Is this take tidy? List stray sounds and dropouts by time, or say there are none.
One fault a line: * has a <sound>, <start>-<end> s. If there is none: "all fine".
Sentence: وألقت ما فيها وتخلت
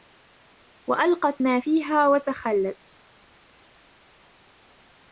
all fine